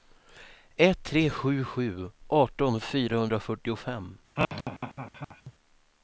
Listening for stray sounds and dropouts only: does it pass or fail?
fail